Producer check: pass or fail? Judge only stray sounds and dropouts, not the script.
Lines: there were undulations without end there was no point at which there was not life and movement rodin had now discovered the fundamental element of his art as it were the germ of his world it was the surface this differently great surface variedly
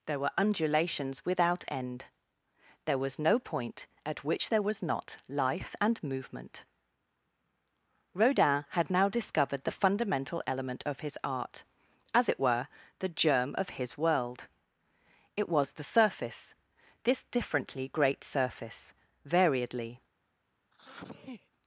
fail